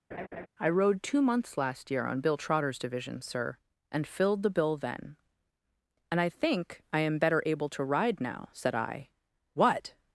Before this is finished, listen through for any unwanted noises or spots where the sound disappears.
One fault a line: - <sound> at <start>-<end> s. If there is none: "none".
- laugh at 0.1-0.5 s